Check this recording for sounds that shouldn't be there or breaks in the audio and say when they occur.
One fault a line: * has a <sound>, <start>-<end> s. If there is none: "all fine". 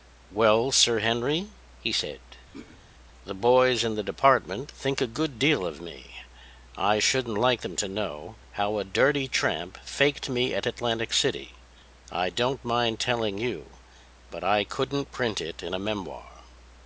* has a throat clearing, 2.5-2.8 s